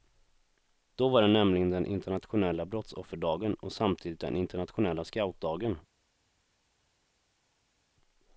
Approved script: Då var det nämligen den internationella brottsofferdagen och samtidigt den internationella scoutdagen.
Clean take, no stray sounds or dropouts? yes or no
yes